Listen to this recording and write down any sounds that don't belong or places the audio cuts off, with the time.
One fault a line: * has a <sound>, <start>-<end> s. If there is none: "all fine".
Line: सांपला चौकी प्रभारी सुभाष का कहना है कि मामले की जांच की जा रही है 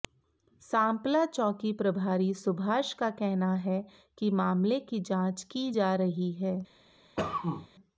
* has a cough, 7.2-7.7 s